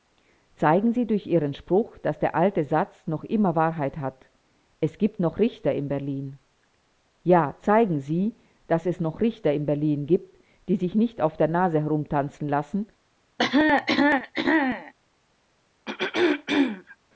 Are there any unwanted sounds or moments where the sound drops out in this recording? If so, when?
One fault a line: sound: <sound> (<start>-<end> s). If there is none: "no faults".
sound: cough (13.4-14.9 s)
sound: throat clearing (15.9-17.0 s)